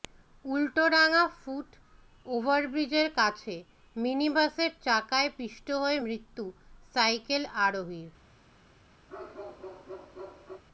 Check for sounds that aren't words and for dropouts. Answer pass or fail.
fail